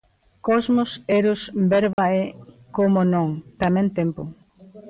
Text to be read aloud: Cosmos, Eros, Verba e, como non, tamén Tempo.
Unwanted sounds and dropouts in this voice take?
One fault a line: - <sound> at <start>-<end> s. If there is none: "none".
- dropout at 1.9-2.0 s